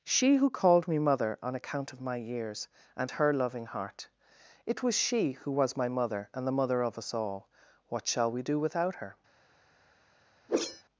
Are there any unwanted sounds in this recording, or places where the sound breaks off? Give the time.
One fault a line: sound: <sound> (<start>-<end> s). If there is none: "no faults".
sound: whoosh (10.5-10.8 s)